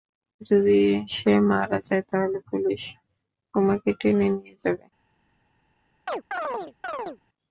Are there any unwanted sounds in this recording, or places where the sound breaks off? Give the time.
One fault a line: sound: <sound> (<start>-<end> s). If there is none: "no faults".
sound: chirp (6.1-7.2 s)